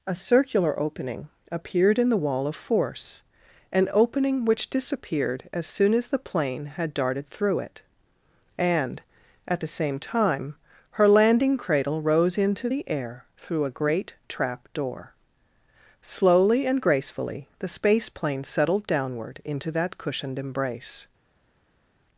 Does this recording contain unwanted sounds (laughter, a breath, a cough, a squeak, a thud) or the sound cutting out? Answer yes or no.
no